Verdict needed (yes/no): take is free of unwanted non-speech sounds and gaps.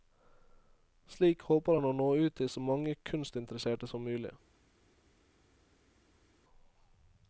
yes